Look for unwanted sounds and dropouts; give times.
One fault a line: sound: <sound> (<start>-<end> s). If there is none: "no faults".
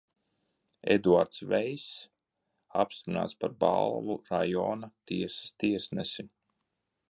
no faults